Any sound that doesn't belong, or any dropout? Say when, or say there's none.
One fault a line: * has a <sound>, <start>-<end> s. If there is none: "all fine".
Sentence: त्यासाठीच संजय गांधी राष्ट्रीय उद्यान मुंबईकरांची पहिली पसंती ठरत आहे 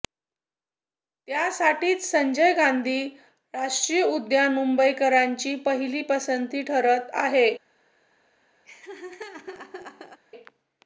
* has a laugh, 8.7-10.2 s